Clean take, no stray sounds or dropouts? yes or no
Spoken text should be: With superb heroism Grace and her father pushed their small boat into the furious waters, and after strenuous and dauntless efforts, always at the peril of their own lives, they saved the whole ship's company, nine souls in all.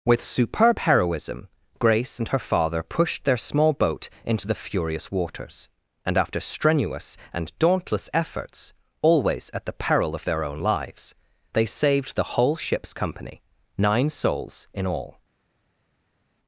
yes